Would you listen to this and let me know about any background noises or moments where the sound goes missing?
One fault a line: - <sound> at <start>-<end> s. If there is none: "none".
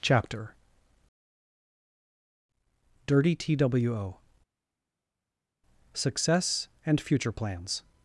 none